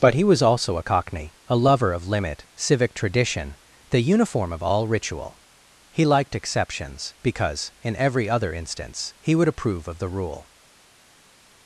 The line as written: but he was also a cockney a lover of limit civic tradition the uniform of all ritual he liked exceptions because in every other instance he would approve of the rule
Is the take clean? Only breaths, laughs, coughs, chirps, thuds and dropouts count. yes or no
yes